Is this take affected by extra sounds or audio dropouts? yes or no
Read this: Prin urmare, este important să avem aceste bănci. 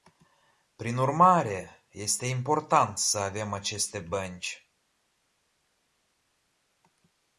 no